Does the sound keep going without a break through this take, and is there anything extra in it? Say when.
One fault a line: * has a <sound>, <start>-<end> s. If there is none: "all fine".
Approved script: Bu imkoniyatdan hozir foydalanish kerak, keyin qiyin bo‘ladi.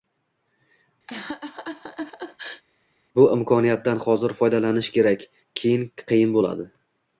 * has a laugh, 1.1-2.6 s